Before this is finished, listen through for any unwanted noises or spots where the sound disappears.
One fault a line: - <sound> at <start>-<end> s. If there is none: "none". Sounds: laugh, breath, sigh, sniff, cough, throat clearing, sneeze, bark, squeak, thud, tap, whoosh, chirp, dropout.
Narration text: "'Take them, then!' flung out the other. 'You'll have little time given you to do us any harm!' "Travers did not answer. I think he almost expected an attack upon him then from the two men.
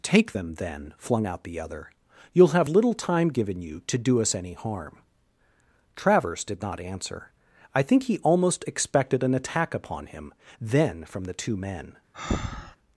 - breath at 12.1-12.8 s